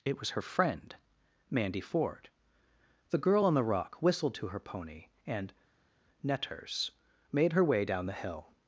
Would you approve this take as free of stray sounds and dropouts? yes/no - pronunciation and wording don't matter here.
yes